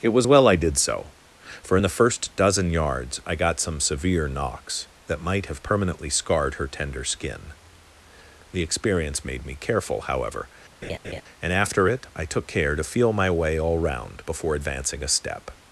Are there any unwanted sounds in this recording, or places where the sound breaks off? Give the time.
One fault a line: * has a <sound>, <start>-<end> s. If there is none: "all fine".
* has a laugh, 10.8-11.2 s